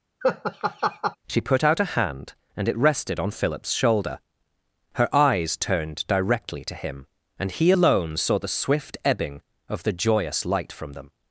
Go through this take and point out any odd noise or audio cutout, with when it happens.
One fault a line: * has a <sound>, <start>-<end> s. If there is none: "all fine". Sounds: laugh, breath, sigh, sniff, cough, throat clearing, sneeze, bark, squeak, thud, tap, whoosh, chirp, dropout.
* has a laugh, 0.2-1.2 s